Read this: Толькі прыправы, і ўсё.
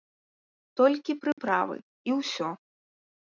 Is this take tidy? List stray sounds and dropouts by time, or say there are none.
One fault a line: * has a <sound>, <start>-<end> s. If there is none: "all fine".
* has a dropout, 1.3-1.4 s